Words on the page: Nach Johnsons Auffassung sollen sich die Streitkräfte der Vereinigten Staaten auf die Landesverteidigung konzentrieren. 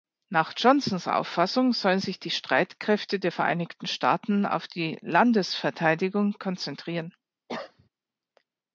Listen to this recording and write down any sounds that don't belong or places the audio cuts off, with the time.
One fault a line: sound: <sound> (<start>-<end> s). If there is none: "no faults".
sound: cough (7.5-7.9 s)